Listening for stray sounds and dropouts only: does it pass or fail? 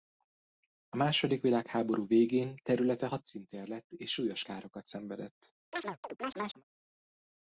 fail